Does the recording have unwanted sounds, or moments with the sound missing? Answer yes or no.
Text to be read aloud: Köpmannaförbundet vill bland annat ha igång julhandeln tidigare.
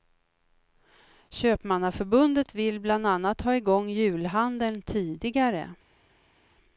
no